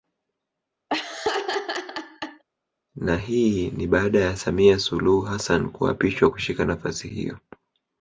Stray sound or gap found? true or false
true